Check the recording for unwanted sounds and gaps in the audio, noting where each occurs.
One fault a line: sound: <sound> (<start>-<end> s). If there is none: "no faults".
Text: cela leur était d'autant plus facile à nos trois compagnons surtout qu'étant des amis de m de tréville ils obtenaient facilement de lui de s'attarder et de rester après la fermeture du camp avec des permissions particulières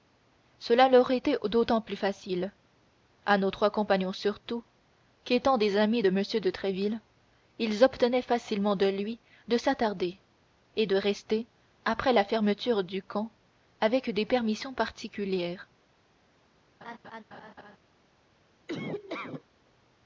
sound: laugh (16.8-17.8 s)
sound: laugh (18.7-19.4 s)